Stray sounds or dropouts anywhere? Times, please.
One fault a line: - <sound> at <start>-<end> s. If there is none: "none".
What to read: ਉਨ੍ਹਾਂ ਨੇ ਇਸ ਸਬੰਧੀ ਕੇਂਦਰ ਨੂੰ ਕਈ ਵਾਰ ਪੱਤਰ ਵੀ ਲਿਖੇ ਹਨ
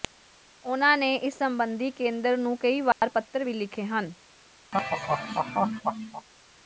- dropout at 2.9-3.0 s
- laugh at 4.7-6.3 s